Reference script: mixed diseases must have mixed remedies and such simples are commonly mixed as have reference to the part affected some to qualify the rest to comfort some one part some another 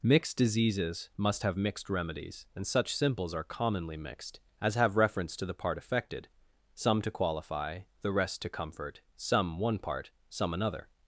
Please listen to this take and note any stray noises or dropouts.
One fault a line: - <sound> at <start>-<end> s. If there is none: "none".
none